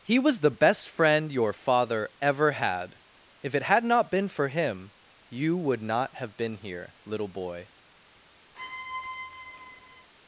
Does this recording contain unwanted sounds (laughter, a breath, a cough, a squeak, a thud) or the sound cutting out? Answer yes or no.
yes